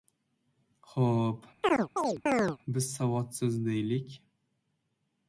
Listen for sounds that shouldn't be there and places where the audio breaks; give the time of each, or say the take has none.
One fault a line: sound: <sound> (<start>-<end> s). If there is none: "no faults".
sound: chirp (1.6-2.6 s)